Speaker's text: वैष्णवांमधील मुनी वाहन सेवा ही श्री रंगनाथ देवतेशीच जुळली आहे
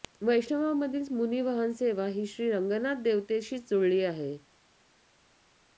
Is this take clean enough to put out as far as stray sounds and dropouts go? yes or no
yes